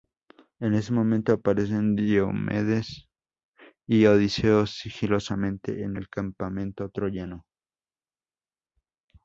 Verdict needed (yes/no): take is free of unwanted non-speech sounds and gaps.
yes